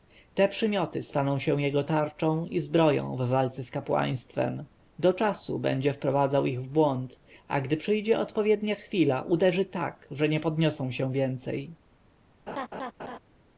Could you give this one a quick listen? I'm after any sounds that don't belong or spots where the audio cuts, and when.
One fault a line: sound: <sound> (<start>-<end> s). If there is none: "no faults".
sound: laugh (12.5-13.2 s)